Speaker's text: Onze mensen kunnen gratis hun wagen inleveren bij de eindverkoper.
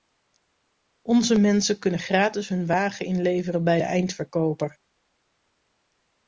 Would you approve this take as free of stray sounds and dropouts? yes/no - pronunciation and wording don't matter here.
yes